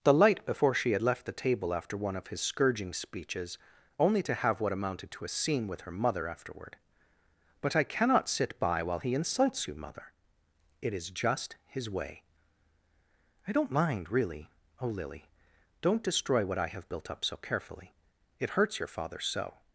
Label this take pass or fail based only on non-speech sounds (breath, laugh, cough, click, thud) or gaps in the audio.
pass